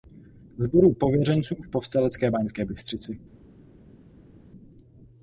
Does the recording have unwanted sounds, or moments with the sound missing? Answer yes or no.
no